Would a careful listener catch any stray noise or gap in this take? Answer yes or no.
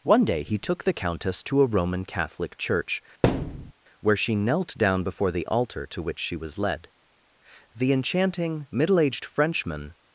yes